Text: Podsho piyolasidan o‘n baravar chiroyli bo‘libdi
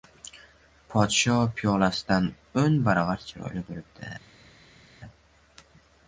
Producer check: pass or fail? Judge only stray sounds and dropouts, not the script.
pass